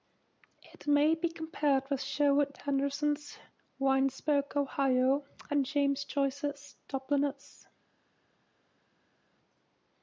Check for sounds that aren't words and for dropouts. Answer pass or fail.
pass